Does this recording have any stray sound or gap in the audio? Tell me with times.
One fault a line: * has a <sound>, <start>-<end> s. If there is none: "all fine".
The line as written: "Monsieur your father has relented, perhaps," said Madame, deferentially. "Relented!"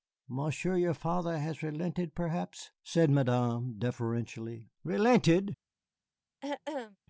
* has a throat clearing, 6.4-7.0 s